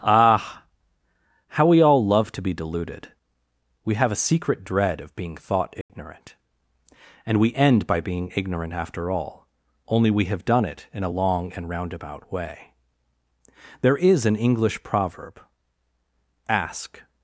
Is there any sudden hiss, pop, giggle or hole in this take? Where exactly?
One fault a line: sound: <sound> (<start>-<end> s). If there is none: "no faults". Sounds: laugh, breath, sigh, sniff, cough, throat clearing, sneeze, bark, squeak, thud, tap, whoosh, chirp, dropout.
sound: dropout (5.8-5.9 s)